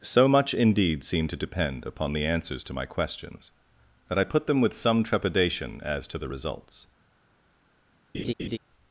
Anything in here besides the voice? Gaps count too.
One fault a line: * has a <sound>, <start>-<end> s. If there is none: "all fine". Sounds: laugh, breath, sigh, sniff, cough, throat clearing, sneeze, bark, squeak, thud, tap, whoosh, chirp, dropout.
* has a laugh, 8.1-8.6 s